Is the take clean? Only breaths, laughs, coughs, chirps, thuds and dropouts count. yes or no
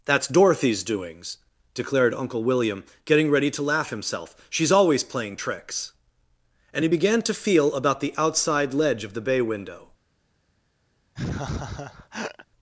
no